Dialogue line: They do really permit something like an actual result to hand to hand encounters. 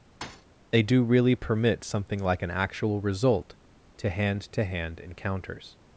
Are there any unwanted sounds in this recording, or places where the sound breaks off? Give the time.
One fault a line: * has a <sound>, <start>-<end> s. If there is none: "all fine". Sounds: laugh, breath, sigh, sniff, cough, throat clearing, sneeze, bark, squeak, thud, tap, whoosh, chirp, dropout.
* has a thud, 0.2-0.5 s